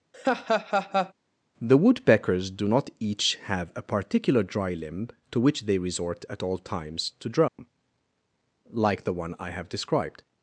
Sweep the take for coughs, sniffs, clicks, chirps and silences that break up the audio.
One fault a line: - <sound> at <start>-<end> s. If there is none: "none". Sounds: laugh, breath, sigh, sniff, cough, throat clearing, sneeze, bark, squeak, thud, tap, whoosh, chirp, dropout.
- laugh at 0.1-1.1 s
- dropout at 7.5-7.6 s